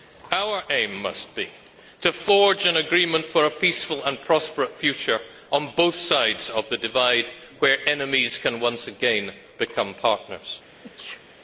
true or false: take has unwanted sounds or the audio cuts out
true